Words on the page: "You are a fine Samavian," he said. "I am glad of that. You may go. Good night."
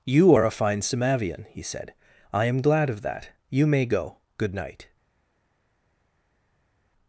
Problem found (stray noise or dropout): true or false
false